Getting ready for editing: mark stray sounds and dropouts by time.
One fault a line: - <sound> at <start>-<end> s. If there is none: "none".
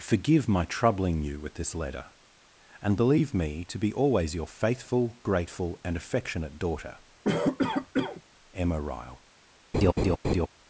- cough at 7.2-8.2 s
- laugh at 9.7-10.5 s